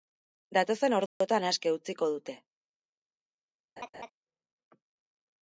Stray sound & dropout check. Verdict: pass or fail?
fail